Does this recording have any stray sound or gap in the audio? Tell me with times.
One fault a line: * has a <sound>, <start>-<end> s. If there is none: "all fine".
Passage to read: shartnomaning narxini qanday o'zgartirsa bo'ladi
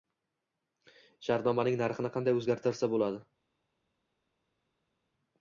all fine